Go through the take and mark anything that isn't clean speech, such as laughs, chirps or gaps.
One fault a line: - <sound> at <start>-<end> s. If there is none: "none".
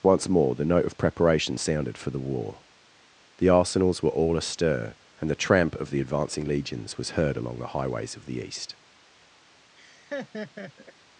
- laugh at 9.8-10.9 s